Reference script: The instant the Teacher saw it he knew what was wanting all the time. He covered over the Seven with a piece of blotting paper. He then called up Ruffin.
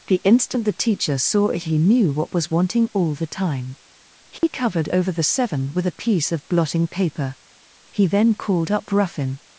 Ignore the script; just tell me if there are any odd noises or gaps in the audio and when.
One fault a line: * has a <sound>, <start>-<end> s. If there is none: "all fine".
* has a dropout, 4.4-4.4 s